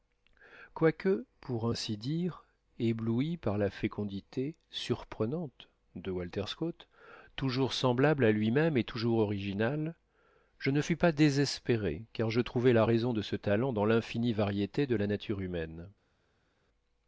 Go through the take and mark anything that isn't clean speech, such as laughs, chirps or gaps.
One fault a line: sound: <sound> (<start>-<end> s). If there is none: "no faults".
no faults